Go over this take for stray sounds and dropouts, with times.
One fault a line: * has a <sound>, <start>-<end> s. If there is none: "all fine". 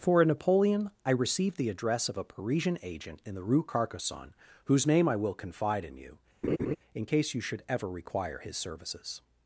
* has a laugh, 6.4-6.8 s